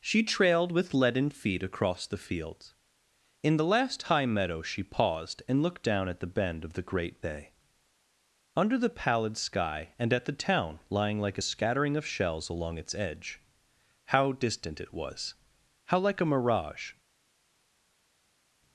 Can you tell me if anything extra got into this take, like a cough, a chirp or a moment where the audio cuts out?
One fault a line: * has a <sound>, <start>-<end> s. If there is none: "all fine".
all fine